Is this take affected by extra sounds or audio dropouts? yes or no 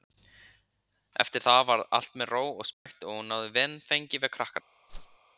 yes